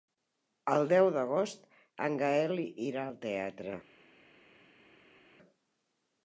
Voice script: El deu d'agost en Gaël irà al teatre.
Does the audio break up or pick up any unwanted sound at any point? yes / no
no